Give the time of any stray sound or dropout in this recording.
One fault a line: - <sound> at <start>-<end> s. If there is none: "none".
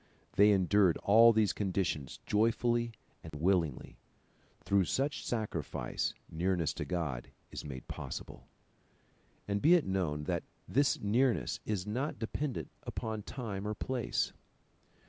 - dropout at 3.3-3.3 s